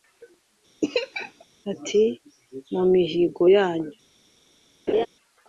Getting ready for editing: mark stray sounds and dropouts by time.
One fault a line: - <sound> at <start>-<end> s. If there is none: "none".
- laugh at 0.8-1.4 s
- laugh at 4.9-5.1 s